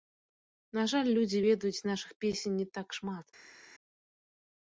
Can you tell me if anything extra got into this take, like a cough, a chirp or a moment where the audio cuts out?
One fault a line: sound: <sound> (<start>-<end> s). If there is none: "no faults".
no faults